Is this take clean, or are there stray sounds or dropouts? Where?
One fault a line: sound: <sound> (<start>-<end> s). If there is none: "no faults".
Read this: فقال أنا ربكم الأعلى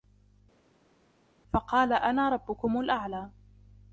no faults